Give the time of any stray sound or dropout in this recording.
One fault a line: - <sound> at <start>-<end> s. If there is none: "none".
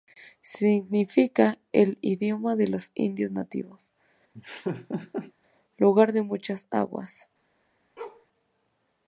- laugh at 4.3-5.3 s
- bark at 8.0-8.3 s